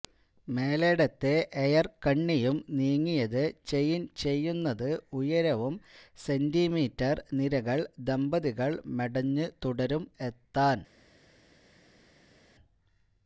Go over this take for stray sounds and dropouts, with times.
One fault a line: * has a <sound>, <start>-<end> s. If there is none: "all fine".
all fine